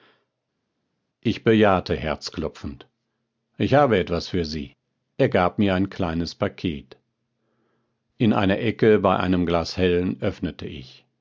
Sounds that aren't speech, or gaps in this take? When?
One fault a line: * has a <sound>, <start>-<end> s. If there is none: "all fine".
all fine